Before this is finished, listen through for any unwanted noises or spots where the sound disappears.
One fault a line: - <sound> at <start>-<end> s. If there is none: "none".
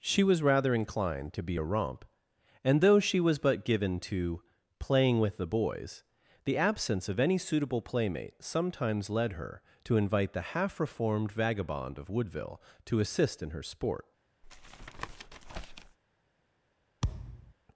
- tap at 14.4-16.0 s
- thud at 17.0-17.5 s